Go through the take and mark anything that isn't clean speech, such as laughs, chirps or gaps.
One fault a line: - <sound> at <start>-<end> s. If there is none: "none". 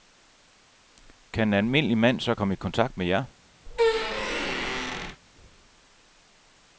- squeak at 3.7-5.2 s